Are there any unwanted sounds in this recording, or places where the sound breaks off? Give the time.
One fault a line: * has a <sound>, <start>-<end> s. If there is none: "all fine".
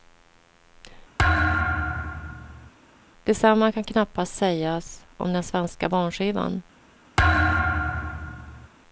* has a thud, 1.2-2.7 s
* has a thud, 7.2-8.7 s